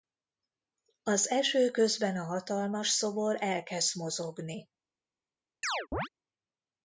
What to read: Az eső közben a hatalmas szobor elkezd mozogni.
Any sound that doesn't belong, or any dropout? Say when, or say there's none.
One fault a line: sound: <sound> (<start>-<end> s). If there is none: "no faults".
sound: chirp (5.6-6.1 s)